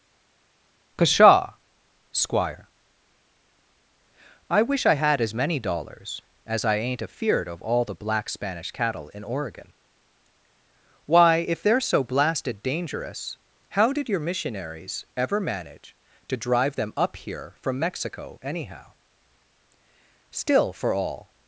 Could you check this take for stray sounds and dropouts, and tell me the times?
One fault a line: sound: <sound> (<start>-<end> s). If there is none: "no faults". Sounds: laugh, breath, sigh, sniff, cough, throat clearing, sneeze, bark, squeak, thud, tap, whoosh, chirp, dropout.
no faults